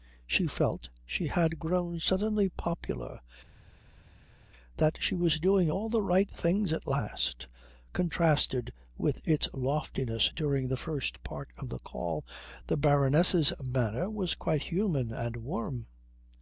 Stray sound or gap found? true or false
false